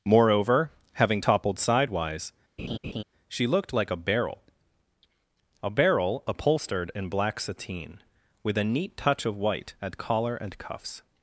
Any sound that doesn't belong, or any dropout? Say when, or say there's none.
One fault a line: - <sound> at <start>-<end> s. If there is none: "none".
- laugh at 2.6-3.0 s